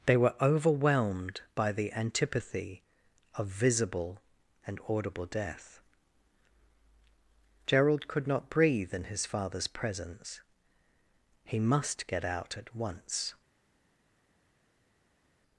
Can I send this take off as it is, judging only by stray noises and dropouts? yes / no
yes